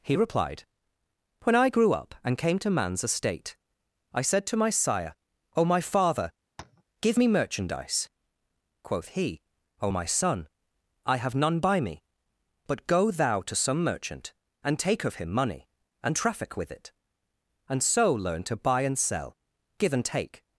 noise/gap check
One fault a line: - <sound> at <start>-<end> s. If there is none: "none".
- tap at 6.6-6.8 s